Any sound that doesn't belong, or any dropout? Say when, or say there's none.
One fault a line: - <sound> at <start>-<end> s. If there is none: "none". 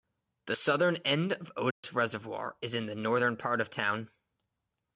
- dropout at 1.7-1.8 s